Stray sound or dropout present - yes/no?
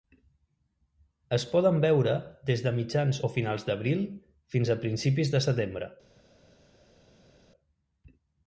no